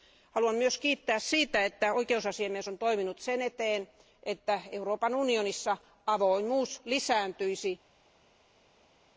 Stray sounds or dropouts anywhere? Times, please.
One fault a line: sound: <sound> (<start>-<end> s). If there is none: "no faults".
no faults